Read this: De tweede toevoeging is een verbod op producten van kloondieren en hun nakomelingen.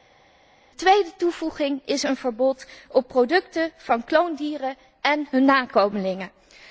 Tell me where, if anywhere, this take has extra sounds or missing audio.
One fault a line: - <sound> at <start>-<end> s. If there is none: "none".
none